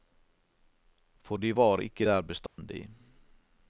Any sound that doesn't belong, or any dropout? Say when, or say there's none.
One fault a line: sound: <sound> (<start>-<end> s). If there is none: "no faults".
sound: dropout (2.5-2.6 s)